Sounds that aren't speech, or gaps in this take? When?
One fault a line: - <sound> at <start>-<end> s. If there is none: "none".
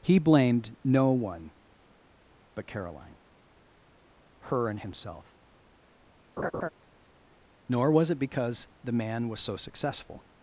- laugh at 6.4-6.7 s